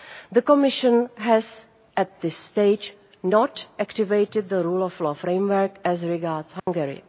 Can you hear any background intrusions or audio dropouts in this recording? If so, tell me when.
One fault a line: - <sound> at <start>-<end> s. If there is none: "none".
- dropout at 6.6-6.7 s